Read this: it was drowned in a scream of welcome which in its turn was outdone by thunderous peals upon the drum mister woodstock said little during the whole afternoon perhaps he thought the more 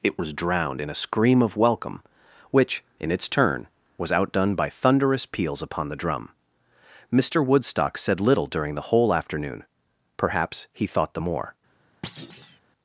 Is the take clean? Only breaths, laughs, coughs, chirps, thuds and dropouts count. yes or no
no